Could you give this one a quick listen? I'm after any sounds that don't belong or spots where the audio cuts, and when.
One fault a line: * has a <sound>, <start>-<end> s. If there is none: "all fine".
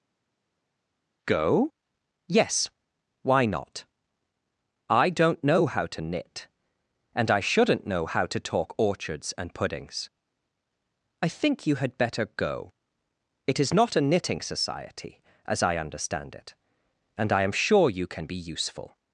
all fine